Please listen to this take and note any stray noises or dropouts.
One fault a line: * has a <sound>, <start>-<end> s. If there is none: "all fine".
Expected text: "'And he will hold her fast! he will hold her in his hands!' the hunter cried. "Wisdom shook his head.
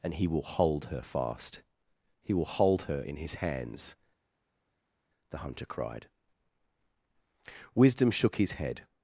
all fine